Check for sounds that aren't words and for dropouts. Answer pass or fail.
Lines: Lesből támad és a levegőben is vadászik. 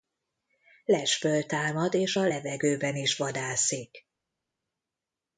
pass